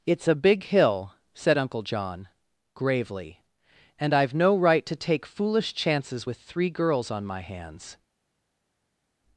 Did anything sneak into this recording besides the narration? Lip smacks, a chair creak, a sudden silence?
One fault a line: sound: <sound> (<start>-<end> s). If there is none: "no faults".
no faults